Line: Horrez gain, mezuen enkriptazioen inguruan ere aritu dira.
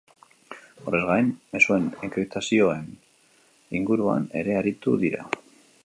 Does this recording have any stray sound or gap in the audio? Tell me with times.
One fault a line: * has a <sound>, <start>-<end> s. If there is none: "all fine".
all fine